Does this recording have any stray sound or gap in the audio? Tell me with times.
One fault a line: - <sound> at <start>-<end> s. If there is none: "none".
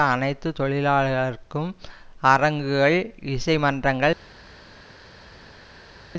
none